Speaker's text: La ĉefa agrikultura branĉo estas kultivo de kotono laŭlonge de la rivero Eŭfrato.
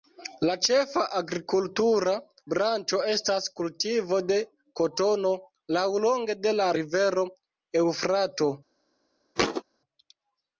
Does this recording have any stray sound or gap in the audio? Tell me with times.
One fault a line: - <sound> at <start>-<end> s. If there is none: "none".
- thud at 9.4-9.6 s